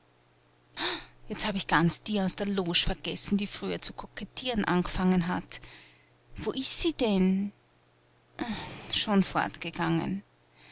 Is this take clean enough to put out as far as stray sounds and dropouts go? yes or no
yes